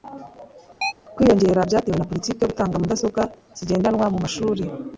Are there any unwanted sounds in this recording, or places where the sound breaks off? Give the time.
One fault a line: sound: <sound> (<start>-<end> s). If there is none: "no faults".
sound: chirp (0.8-0.9 s)